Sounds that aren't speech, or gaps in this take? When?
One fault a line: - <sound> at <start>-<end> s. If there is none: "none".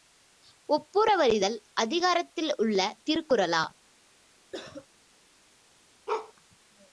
- cough at 4.5-4.9 s
- bark at 6.1-6.3 s